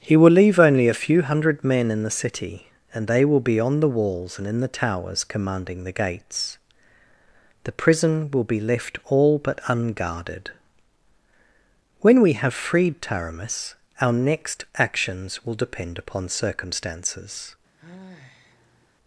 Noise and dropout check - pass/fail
fail